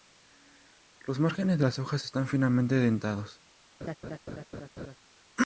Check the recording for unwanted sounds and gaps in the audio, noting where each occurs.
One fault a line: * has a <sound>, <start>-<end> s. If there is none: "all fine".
* has a laugh, 3.8-5.0 s